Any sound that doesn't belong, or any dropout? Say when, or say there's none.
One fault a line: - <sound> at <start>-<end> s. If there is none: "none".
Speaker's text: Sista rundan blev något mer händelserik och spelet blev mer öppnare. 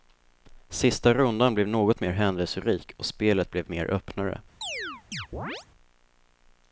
- chirp at 4.6-5.7 s